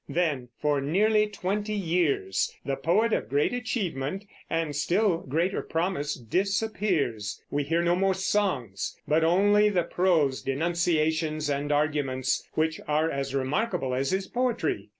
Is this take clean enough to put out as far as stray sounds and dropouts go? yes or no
yes